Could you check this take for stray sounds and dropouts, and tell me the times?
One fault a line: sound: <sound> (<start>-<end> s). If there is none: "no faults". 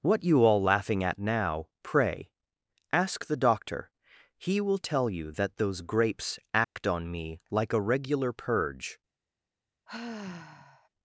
sound: dropout (6.6-6.8 s)
sound: sigh (9.9-10.9 s)